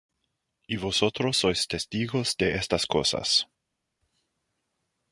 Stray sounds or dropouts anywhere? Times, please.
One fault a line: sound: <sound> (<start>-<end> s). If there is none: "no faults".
no faults